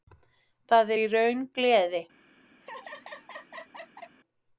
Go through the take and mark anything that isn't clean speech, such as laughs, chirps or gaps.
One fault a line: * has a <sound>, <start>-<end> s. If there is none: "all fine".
* has a laugh, 2.6-4.2 s